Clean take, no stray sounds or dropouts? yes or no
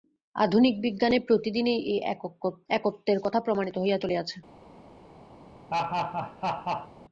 no